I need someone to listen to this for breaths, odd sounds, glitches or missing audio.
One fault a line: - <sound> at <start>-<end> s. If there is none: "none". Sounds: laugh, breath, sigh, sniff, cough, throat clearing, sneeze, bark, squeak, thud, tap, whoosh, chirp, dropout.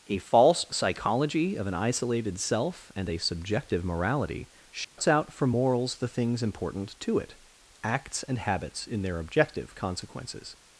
- dropout at 4.8-5.0 s